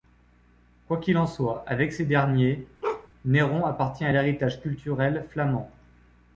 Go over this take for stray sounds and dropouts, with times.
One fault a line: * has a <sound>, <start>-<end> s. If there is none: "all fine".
* has a bark, 2.8-3.1 s